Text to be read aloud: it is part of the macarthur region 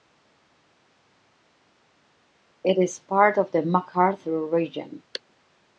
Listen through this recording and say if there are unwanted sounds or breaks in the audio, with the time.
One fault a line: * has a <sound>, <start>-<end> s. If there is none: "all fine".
all fine